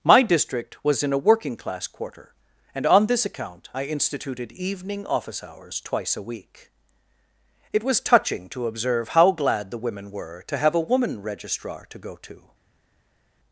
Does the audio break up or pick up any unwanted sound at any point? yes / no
no